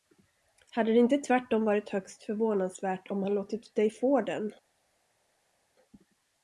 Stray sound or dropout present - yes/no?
no